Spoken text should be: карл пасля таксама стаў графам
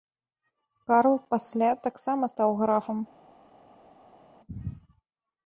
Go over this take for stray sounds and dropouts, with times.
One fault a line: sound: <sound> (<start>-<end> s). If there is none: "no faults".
no faults